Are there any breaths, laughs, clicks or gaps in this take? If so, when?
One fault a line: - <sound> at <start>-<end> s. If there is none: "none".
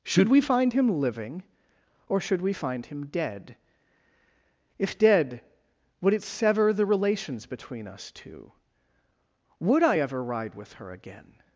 none